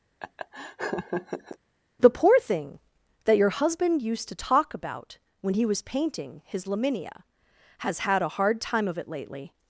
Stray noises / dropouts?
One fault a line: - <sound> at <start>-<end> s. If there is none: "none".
- laugh at 0.2-1.6 s